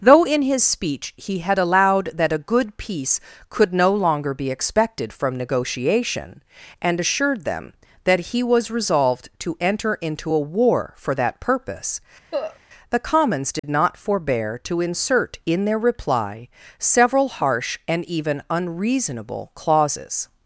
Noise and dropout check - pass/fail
fail